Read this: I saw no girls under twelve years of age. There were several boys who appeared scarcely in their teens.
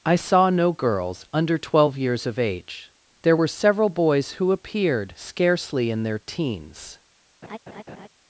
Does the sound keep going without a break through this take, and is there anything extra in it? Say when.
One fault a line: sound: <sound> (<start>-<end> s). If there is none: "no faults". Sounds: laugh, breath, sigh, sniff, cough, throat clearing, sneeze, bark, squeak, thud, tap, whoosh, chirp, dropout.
sound: laugh (7.4-8.1 s)